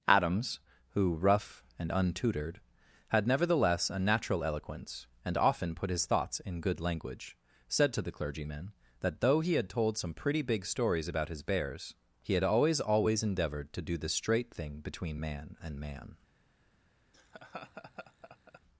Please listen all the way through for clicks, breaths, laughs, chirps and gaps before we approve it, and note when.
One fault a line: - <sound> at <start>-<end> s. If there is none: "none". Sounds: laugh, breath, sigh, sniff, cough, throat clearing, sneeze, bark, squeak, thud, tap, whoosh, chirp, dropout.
- laugh at 17.1-18.6 s